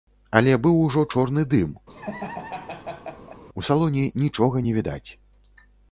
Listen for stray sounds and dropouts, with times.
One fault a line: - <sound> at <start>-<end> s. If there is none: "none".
- laugh at 1.9-3.4 s